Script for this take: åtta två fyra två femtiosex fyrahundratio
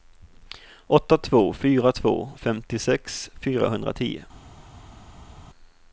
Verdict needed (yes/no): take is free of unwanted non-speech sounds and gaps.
yes